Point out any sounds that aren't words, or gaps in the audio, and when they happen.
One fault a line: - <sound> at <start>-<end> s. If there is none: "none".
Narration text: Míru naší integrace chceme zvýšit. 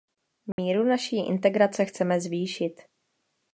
- dropout at 0.5-0.6 s